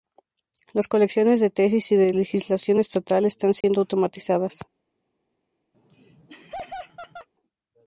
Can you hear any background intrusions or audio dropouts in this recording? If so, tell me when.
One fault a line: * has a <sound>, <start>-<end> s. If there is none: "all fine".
* has a dropout, 3.6-3.6 s
* has a laugh, 5.7-7.3 s